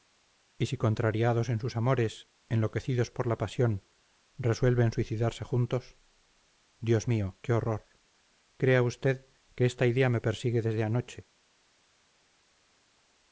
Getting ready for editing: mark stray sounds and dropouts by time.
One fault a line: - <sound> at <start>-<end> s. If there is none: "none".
none